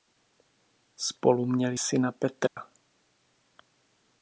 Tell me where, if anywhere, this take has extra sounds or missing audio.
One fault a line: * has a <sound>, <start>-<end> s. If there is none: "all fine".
* has a dropout, 2.5-2.6 s